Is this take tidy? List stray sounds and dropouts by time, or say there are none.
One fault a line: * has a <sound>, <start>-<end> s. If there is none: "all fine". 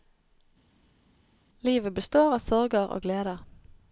all fine